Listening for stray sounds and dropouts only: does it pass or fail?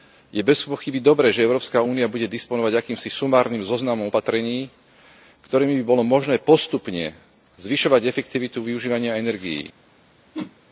fail